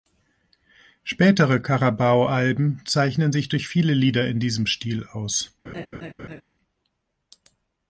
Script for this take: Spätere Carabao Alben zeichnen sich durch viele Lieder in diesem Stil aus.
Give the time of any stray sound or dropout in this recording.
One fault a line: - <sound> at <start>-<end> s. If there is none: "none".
- laugh at 5.7-6.4 s